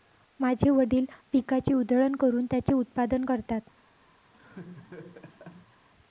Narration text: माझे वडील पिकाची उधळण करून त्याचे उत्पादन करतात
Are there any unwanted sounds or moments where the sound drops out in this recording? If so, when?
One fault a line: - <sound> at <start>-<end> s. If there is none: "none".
- laugh at 4.3-5.9 s